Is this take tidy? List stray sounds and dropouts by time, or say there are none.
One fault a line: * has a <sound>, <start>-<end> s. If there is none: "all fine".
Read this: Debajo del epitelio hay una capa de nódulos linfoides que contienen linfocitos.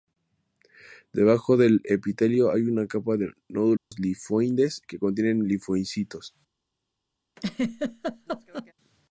* has a dropout, 3.8-3.9 s
* has a laugh, 7.4-8.7 s